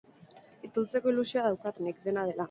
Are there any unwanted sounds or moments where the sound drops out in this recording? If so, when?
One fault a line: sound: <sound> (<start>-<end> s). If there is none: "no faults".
no faults